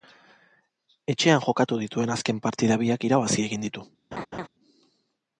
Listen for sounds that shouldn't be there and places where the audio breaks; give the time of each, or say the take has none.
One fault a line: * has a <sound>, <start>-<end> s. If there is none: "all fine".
* has a laugh, 4.1-4.5 s